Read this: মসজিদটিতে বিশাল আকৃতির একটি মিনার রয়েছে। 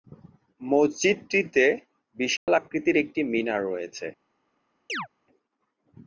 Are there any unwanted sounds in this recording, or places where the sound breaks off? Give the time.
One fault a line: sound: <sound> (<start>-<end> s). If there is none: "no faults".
sound: dropout (2.4-2.5 s)
sound: chirp (4.9-5.1 s)